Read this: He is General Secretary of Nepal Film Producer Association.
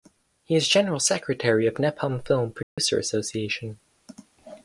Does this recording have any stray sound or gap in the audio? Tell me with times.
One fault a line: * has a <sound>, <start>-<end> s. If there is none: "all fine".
* has a dropout, 2.6-2.8 s